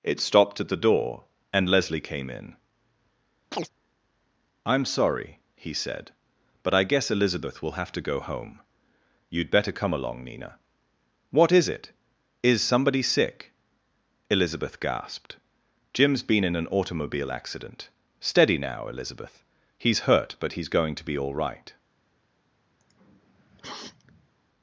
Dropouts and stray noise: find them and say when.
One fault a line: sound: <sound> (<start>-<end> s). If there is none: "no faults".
sound: chirp (3.5-3.7 s)
sound: sniff (22.8-24.3 s)